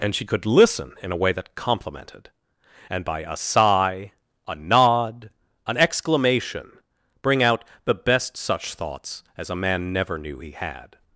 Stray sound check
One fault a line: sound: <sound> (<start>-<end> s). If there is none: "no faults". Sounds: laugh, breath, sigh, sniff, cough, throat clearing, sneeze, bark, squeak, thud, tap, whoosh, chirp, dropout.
no faults